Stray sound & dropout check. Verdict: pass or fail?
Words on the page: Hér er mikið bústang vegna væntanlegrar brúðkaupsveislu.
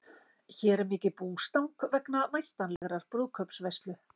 fail